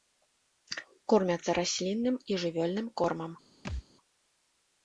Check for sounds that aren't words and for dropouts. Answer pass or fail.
fail